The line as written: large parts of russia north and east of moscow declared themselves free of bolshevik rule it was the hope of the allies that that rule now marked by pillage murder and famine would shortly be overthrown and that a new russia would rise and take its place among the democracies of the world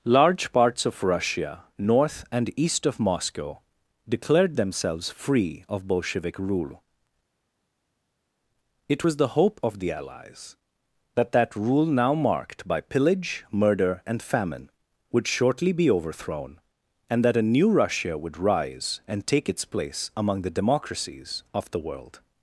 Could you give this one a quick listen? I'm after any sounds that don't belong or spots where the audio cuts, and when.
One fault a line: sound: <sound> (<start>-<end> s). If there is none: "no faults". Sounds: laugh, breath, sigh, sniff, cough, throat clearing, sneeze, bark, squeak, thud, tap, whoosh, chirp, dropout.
no faults